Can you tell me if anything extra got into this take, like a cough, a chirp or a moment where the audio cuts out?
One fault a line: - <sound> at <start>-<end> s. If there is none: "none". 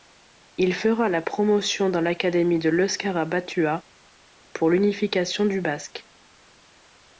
none